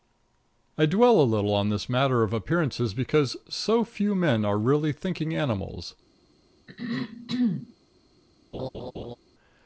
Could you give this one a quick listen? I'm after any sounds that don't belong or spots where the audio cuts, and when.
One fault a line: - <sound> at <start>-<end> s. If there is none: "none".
- throat clearing at 6.7-7.7 s
- laugh at 8.5-9.2 s